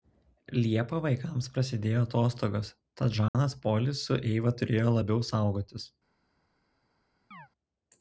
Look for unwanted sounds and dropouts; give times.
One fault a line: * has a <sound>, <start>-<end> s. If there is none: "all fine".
* has a dropout, 3.3-3.3 s
* has a chirp, 7.3-7.5 s